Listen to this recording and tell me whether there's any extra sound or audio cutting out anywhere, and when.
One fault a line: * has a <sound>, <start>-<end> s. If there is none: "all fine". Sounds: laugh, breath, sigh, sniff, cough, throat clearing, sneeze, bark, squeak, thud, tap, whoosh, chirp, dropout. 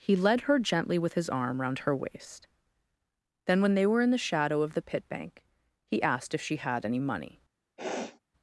* has a sniff, 7.8-8.2 s